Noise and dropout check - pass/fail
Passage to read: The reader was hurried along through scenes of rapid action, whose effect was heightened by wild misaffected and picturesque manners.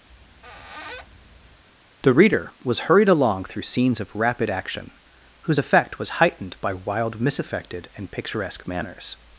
fail